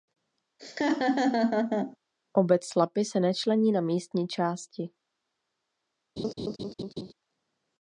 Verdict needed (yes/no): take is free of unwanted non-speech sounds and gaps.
no